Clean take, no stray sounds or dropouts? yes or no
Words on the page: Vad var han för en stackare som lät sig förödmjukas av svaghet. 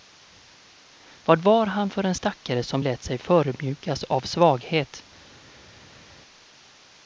yes